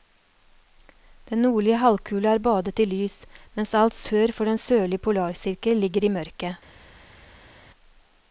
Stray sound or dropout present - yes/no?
no